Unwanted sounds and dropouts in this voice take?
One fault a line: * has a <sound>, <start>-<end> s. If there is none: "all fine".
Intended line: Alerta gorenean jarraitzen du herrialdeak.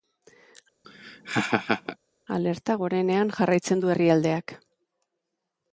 * has a laugh, 0.8-2.0 s